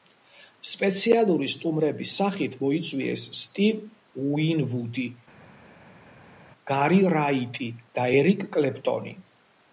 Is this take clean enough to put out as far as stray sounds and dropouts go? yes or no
yes